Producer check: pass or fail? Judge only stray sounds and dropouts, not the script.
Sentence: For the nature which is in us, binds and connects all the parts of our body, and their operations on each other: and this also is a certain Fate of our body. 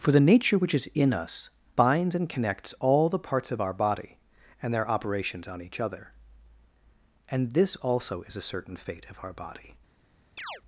fail